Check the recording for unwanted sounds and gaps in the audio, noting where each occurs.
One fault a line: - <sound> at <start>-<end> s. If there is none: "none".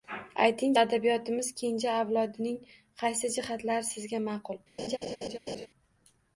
- laugh at 4.8-5.7 s